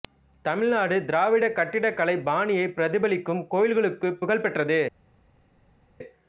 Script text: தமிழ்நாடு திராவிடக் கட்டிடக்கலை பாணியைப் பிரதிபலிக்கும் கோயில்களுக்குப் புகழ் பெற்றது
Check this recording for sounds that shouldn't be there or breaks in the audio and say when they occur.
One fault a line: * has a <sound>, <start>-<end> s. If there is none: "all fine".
all fine